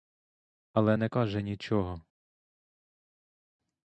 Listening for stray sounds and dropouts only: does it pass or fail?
pass